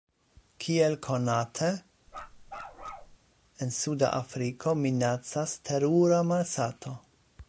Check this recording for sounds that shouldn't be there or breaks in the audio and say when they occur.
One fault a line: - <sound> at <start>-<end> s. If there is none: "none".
- bark at 2.1-3.2 s